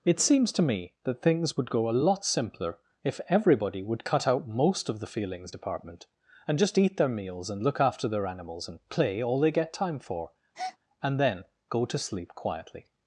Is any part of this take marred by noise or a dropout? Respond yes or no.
yes